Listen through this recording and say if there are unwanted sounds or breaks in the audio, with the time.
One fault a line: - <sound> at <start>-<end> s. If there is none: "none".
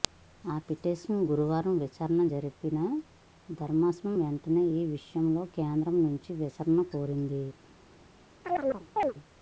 - chirp at 8.4-9.1 s